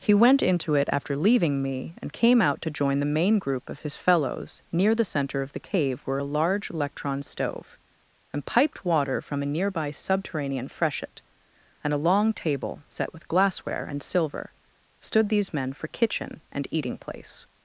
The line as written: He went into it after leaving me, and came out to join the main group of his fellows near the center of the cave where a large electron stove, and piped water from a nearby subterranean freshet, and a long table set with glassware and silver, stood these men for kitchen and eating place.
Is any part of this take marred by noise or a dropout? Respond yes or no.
no